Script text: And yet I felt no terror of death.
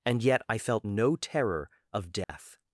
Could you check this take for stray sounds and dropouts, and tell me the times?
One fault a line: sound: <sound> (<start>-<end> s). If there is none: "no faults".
sound: dropout (2.2-2.3 s)